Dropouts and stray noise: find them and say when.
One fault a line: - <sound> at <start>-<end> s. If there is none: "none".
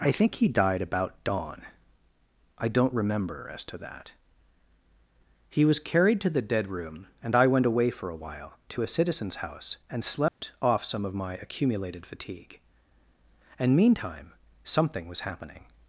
- dropout at 10.3-10.4 s